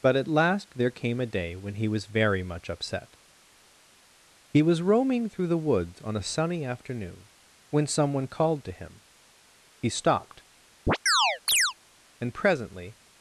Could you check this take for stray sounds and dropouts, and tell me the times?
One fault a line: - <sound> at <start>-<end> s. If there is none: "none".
- chirp at 10.9-11.7 s